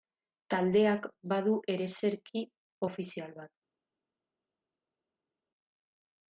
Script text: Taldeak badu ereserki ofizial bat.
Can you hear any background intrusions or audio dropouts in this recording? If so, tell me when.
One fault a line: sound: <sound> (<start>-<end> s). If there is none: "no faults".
no faults